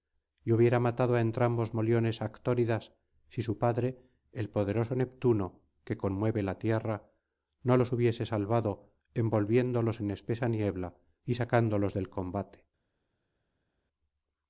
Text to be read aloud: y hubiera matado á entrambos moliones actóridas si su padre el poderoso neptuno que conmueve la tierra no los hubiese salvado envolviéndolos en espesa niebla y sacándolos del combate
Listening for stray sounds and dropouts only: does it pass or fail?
pass